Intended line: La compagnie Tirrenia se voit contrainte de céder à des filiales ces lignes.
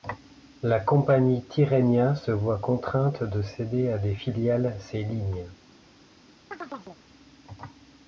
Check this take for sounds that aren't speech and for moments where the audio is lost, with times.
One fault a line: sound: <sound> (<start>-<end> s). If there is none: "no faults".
sound: chirp (6.5-7.0 s)